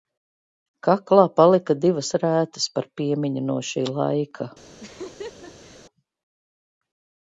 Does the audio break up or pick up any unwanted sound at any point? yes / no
yes